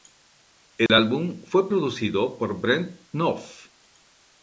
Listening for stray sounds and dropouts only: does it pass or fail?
fail